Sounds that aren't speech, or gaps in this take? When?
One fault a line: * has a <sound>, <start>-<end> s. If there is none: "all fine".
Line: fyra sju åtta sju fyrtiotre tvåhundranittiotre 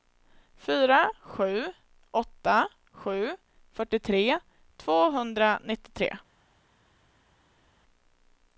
all fine